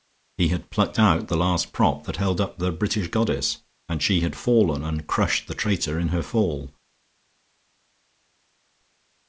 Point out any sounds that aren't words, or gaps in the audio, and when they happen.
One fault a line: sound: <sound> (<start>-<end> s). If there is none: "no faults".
no faults